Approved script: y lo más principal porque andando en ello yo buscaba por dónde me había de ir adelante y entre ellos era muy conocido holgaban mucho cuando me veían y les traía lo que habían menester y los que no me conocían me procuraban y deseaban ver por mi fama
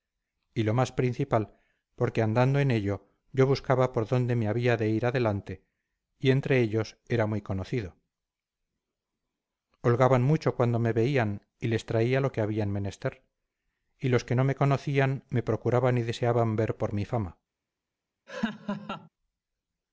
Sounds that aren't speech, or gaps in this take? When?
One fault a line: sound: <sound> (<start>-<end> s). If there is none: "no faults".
sound: laugh (18.3-19.1 s)